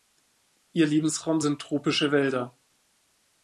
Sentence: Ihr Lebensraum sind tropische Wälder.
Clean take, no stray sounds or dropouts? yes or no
yes